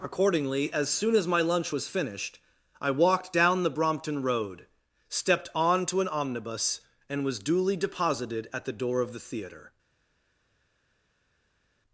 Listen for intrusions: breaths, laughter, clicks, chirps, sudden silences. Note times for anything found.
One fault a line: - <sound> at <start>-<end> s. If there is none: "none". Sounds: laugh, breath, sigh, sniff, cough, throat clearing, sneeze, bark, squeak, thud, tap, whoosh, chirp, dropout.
none